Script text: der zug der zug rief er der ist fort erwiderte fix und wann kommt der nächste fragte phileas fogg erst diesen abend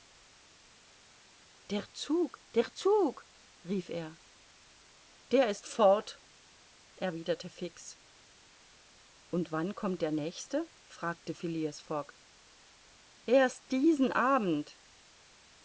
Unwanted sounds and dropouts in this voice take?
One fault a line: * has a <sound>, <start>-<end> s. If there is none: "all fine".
all fine